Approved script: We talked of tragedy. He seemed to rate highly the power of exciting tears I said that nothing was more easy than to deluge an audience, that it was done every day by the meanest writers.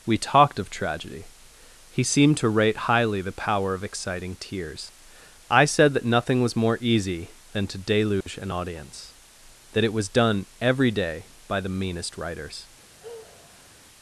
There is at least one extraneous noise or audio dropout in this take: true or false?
true